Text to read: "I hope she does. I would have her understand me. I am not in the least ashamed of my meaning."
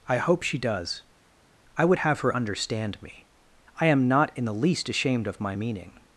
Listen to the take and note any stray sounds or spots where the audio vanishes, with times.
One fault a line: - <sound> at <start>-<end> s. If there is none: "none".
none